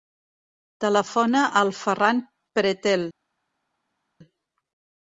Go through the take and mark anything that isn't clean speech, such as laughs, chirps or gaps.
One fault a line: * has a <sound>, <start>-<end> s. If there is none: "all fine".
all fine